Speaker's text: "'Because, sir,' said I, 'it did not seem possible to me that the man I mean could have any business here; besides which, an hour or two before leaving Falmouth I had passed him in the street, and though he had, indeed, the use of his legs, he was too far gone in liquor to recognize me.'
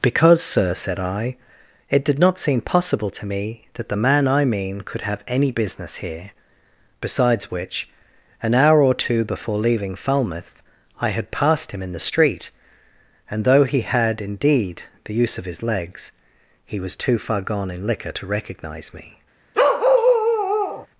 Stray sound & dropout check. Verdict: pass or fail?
fail